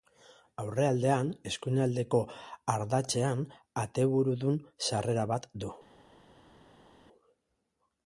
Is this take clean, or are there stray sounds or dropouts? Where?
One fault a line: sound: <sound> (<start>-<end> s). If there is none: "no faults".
no faults